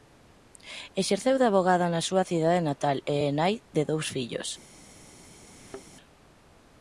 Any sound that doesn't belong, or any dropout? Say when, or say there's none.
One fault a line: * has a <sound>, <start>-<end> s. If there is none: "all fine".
* has a thud, 5.5-5.9 s